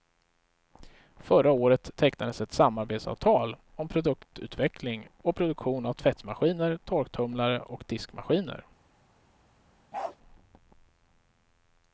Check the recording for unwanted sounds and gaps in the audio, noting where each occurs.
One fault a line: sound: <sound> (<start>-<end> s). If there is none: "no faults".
sound: bark (9.9-10.2 s)